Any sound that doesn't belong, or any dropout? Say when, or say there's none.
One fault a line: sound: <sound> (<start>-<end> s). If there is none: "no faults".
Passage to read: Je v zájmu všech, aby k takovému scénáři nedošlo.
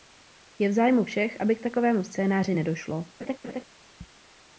sound: laugh (3.2-3.6 s)